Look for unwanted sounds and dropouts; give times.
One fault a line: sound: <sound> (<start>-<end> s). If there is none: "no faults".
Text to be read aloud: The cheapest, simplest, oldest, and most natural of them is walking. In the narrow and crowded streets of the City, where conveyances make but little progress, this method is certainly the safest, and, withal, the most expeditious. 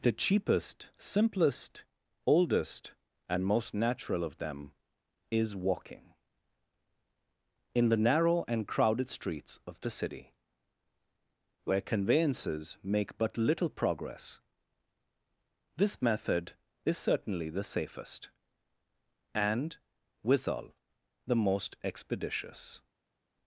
no faults